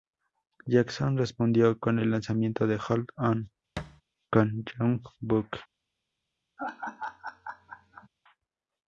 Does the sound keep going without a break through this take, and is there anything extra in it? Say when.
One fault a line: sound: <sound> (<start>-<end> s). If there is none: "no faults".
sound: thud (3.8-4.0 s)
sound: laugh (6.6-8.1 s)